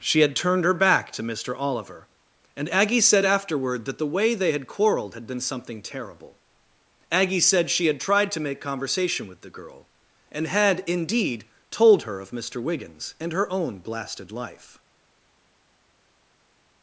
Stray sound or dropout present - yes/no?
no